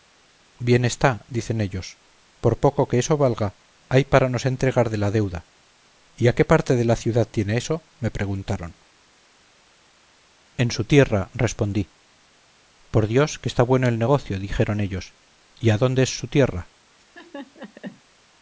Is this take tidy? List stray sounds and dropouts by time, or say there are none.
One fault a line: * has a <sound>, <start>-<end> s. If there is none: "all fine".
* has a laugh, 17.0-18.0 s